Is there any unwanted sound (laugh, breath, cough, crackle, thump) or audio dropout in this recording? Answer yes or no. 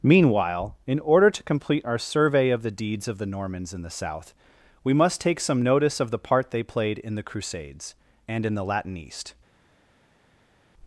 no